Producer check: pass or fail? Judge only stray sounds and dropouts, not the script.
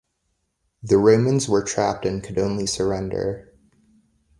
pass